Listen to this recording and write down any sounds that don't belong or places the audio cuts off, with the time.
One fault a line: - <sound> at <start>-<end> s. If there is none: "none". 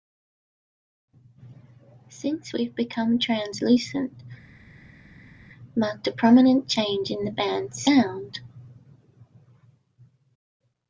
none